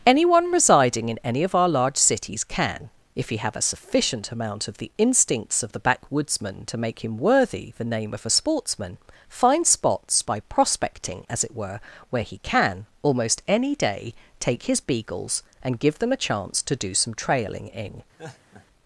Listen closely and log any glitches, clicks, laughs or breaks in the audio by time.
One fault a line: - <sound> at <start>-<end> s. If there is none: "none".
- laugh at 18.2-18.7 s